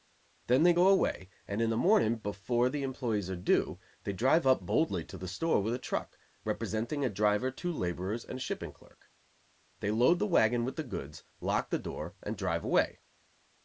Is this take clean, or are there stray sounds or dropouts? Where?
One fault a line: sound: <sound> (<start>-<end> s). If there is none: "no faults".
no faults